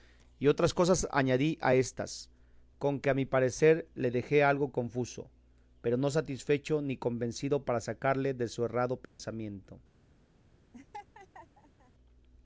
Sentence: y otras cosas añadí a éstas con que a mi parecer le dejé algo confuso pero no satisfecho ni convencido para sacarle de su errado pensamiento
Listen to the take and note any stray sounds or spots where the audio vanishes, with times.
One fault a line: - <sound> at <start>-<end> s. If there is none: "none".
- dropout at 9.0-9.2 s
- laugh at 10.7-11.9 s